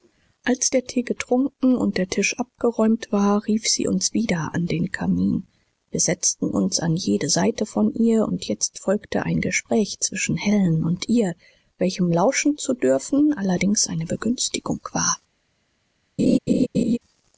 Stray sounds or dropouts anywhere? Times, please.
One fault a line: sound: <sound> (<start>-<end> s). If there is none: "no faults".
sound: laugh (16.2-17.0 s)